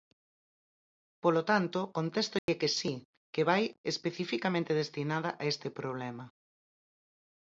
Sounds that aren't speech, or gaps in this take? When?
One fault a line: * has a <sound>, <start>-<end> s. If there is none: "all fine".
* has a dropout, 2.4-2.5 s